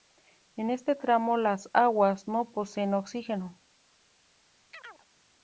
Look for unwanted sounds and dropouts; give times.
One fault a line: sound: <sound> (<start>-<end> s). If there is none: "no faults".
sound: chirp (4.7-5.1 s)